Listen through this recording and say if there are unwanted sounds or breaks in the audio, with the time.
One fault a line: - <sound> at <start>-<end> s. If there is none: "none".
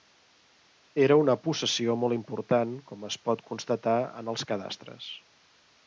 none